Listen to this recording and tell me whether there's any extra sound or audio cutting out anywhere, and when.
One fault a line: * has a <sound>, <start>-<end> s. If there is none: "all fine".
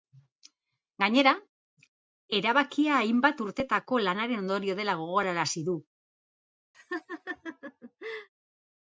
* has a laugh, 6.7-8.3 s